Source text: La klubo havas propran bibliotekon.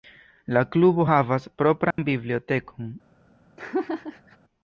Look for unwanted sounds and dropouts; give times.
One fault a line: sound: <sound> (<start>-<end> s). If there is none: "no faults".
sound: dropout (1.9-2.0 s)
sound: laugh (3.6-4.4 s)